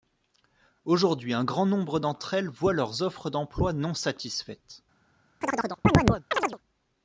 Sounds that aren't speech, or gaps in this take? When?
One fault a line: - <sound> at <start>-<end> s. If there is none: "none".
- chirp at 5.4-6.6 s